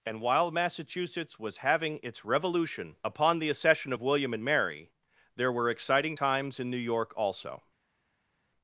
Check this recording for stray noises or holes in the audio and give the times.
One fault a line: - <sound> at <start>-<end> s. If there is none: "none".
none